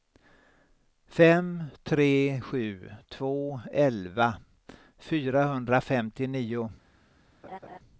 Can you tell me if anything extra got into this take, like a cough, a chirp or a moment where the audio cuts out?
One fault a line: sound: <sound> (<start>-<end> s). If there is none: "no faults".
sound: laugh (7.4-7.8 s)